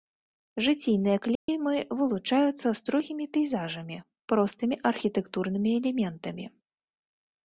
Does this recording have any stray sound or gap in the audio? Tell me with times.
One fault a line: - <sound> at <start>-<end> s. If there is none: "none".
- dropout at 1.4-1.5 s